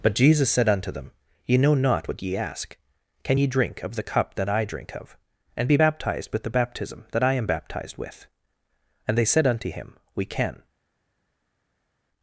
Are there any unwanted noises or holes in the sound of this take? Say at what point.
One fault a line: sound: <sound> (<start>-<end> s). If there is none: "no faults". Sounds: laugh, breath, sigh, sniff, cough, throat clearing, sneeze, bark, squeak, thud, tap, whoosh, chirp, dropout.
no faults